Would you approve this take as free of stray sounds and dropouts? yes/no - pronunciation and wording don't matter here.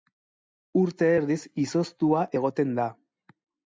yes